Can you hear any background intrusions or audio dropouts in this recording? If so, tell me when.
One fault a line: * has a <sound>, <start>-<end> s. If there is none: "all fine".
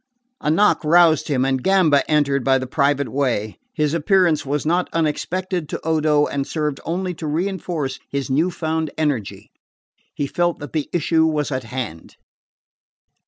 all fine